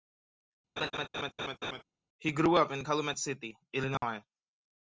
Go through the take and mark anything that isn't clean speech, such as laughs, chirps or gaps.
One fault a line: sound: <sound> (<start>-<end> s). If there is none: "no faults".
sound: laugh (0.8-1.8 s)
sound: dropout (4.0-4.0 s)